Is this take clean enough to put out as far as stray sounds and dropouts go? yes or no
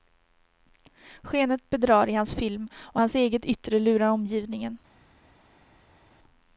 yes